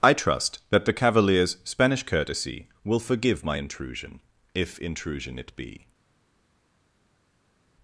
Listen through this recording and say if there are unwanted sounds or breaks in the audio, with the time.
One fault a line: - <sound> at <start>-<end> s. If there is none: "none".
none